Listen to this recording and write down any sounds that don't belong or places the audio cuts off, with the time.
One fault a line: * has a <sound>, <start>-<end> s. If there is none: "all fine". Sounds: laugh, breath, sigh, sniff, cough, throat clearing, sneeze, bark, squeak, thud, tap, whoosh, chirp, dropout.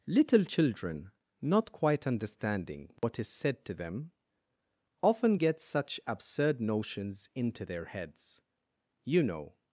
* has a dropout, 3.0-3.0 s